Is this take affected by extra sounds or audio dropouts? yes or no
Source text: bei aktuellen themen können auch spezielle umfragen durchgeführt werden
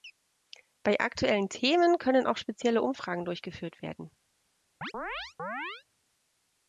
yes